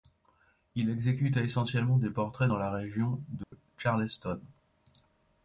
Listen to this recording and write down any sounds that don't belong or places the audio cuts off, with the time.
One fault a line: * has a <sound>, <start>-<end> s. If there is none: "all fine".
* has a dropout, 3.4-3.5 s